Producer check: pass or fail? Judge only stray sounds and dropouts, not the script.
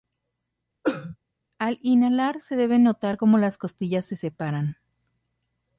fail